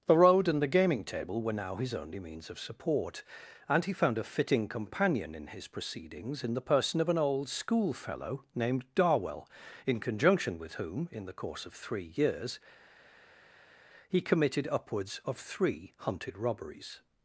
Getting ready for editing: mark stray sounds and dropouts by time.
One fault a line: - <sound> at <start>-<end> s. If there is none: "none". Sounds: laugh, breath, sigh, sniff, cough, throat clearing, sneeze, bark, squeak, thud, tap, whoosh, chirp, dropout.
none